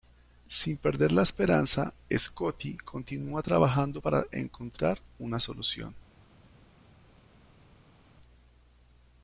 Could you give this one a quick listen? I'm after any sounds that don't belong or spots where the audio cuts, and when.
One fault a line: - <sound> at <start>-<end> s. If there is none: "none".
none